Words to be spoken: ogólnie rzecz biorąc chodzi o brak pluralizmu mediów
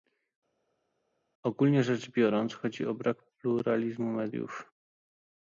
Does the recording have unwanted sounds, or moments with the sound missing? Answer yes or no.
no